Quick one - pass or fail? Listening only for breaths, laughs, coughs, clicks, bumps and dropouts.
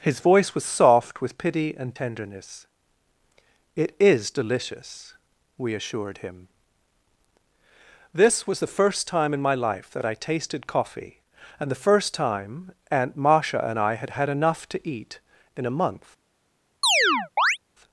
fail